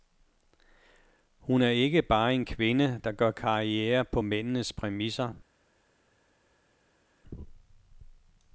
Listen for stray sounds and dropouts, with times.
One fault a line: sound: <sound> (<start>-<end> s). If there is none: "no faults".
no faults